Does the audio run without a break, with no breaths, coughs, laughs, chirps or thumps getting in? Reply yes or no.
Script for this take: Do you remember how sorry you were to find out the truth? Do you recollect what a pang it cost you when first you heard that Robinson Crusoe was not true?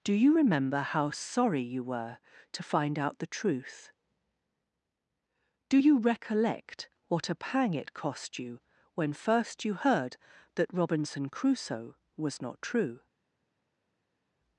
yes